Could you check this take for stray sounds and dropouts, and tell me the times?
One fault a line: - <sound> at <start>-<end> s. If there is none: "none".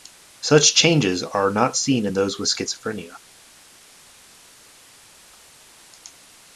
none